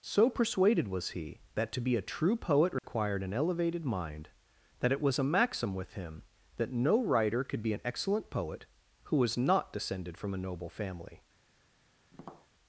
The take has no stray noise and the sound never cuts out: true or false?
false